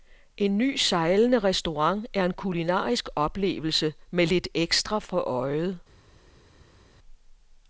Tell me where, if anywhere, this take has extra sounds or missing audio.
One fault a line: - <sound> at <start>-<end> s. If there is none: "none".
none